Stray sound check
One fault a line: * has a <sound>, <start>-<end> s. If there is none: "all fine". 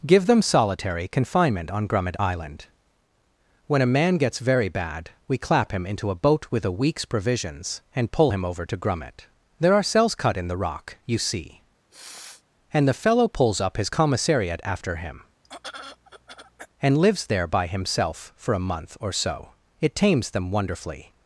* has a sniff, 11.9-12.4 s
* has a throat clearing, 15.4-16.7 s